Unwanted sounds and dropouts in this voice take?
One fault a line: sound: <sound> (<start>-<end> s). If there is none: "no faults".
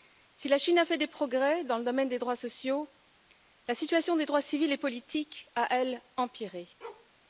sound: bark (6.8-7.1 s)